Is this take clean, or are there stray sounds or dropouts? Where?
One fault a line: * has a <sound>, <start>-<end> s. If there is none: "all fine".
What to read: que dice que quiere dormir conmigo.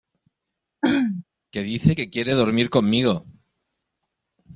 * has a throat clearing, 0.8-1.2 s